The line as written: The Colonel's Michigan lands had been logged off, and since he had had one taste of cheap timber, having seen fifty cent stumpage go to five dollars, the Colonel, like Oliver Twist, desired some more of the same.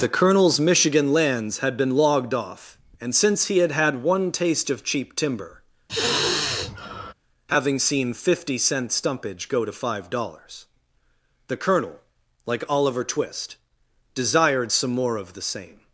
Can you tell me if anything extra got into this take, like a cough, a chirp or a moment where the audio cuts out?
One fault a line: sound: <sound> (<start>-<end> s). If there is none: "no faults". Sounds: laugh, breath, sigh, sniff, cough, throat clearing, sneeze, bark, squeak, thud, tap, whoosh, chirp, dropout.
sound: sigh (5.9-7.1 s)